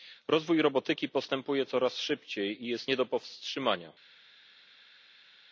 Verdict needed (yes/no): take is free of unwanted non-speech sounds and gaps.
yes